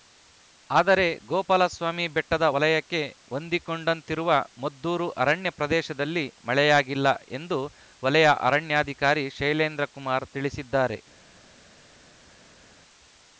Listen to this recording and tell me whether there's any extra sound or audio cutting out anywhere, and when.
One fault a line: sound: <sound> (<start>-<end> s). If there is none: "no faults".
no faults